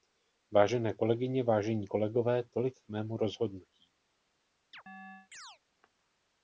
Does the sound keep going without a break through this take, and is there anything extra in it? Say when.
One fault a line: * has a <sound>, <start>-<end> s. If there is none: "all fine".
* has a chirp, 4.7-5.6 s